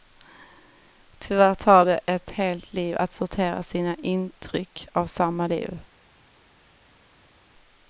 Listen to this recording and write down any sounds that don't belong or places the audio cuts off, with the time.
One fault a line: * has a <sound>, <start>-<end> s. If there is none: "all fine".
all fine